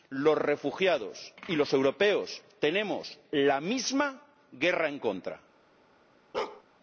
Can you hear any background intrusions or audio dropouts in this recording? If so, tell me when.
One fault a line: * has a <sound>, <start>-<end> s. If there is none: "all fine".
* has a bark, 6.3-6.6 s